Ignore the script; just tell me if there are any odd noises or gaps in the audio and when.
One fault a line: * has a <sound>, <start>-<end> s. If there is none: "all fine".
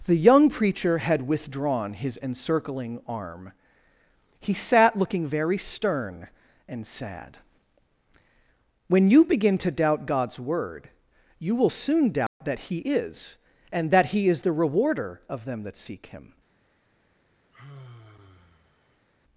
* has a dropout, 12.3-12.4 s
* has a sigh, 17.5-19.1 s